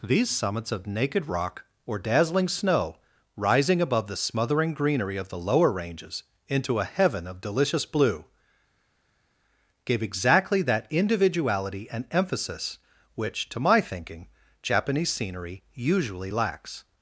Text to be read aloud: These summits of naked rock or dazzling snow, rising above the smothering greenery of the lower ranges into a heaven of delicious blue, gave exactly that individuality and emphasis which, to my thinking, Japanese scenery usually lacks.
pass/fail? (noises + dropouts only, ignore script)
pass